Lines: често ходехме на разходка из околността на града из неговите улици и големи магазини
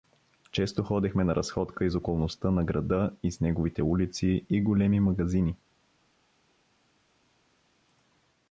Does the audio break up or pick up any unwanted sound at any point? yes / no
no